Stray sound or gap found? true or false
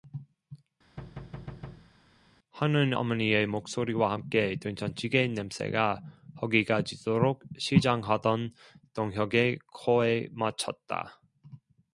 true